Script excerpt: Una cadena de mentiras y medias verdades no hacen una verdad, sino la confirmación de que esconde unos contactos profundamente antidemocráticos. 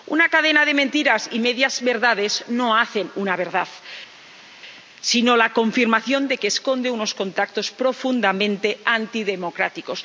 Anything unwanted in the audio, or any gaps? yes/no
no